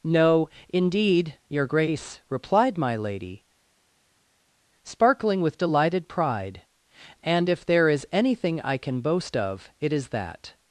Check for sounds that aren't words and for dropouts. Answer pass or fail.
pass